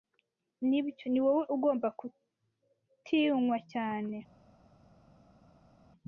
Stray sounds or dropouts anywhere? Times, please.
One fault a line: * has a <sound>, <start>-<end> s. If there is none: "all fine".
all fine